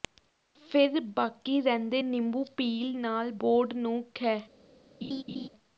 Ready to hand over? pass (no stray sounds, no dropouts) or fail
fail